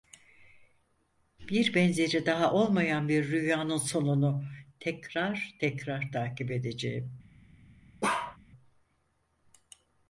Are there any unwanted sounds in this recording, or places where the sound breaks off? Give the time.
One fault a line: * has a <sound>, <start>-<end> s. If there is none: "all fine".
* has a bark, 8.0-8.4 s